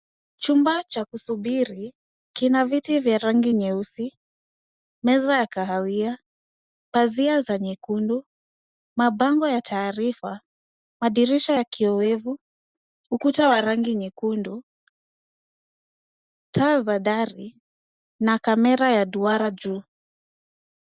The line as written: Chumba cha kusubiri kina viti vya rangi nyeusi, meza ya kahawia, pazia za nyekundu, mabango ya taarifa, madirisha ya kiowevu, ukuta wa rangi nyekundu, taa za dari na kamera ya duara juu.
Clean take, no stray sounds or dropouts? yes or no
yes